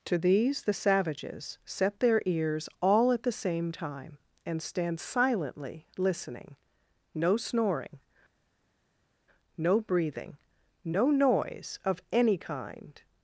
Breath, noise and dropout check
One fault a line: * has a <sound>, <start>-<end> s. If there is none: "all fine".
all fine